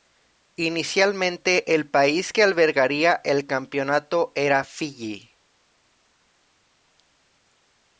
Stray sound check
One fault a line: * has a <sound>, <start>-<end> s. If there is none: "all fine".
all fine